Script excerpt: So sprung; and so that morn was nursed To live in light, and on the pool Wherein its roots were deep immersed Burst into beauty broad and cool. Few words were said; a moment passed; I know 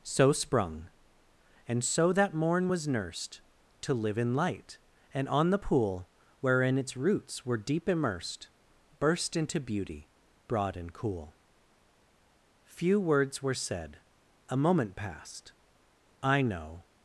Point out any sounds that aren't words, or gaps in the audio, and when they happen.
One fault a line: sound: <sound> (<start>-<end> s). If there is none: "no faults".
no faults